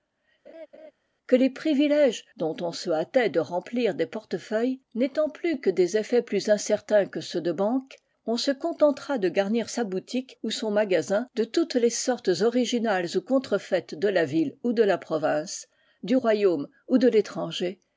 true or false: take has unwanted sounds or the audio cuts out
true